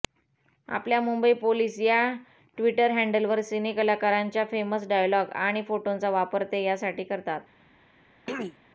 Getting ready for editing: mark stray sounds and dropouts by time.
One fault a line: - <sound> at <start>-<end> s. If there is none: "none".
- throat clearing at 8.3-8.6 s